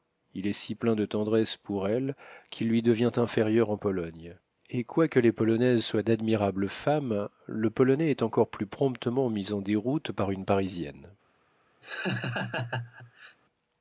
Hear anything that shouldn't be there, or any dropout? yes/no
yes